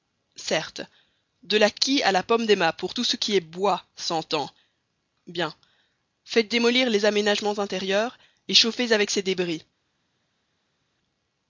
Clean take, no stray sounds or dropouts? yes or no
yes